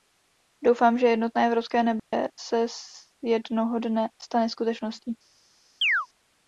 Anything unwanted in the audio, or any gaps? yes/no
yes